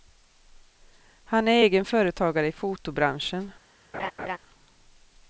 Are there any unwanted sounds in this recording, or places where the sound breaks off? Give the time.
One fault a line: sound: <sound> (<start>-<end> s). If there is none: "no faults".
sound: laugh (3.9-4.4 s)